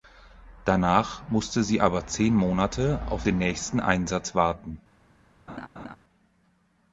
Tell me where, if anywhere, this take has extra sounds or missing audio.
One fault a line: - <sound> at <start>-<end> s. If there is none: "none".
- laugh at 5.5-6.0 s